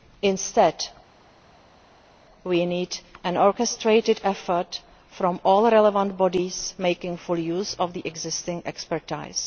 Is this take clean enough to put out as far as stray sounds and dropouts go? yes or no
yes